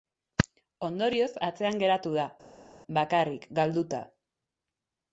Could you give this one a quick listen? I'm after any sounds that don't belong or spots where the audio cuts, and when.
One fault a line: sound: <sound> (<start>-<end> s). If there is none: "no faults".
no faults